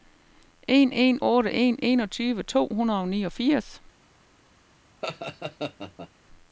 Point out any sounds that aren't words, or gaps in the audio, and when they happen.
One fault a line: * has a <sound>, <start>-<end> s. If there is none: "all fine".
* has a laugh, 5.0-6.1 s